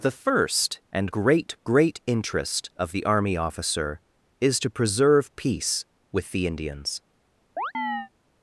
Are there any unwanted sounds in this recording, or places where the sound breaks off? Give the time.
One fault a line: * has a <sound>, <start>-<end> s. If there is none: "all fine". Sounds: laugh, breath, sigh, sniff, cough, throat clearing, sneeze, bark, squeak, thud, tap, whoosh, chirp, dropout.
* has a chirp, 7.6-8.1 s